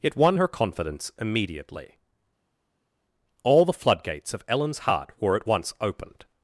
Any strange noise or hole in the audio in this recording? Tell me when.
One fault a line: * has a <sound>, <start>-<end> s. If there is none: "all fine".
all fine